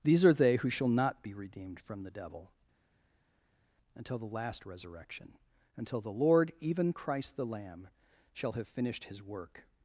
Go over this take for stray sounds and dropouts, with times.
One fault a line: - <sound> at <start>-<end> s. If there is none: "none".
none